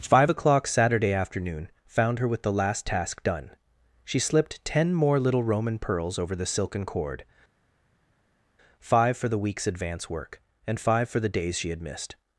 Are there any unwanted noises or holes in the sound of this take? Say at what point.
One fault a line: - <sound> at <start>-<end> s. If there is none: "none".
none